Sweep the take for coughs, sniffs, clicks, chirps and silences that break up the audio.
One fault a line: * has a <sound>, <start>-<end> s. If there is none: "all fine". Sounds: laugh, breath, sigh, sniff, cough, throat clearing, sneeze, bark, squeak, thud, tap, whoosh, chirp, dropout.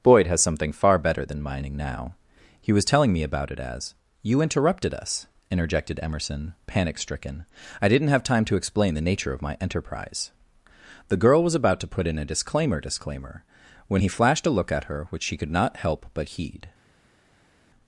all fine